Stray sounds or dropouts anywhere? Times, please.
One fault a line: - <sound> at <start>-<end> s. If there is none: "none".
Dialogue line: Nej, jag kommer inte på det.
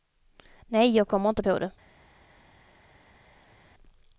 none